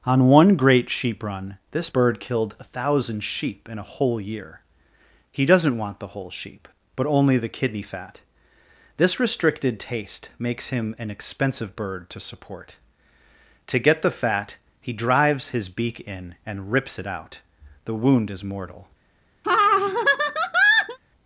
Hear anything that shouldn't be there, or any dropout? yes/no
yes